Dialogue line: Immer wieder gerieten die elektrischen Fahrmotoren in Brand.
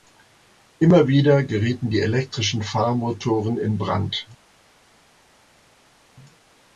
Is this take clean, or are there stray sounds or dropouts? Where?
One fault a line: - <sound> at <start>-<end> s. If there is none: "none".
none